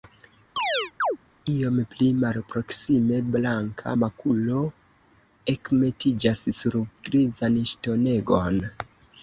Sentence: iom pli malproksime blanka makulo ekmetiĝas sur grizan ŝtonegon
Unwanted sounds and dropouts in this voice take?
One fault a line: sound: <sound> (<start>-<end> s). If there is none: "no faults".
sound: chirp (0.6-1.2 s)